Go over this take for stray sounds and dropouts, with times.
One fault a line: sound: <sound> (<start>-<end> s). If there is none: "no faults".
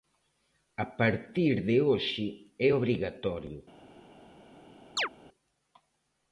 sound: chirp (5.0-5.1 s)